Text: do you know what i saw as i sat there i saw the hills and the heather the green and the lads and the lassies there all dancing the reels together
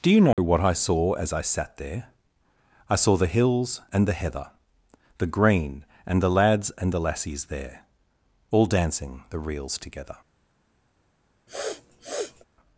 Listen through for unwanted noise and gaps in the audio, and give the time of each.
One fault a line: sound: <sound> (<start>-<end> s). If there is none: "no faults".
sound: dropout (0.3-0.4 s)
sound: sniff (11.5-12.4 s)